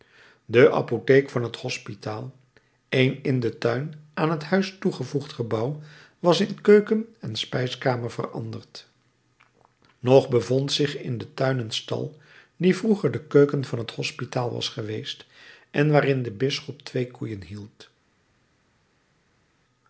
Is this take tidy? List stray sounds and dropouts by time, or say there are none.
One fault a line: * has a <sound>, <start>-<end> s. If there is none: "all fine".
all fine